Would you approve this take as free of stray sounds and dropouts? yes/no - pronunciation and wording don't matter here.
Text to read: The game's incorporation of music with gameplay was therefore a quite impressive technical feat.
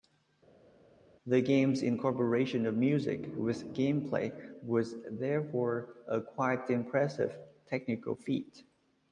yes